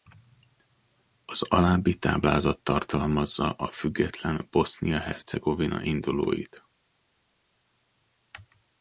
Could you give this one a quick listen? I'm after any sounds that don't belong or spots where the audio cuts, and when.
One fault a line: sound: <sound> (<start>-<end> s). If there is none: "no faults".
no faults